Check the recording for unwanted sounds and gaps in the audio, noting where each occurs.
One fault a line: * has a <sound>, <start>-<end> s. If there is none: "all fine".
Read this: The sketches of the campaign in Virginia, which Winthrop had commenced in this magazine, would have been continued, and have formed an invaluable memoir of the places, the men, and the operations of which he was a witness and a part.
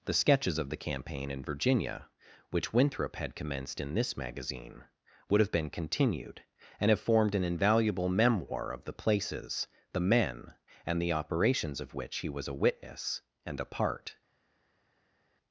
all fine